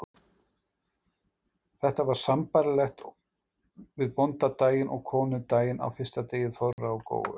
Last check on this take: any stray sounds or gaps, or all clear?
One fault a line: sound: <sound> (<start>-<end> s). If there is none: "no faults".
sound: dropout (6.7-6.8 s)